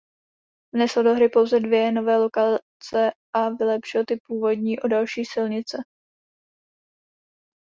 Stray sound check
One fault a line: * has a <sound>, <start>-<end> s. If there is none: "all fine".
all fine